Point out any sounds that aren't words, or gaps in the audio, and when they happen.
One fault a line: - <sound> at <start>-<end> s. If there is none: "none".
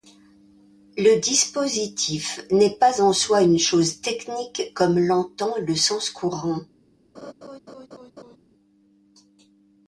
- laugh at 7.1-8.4 s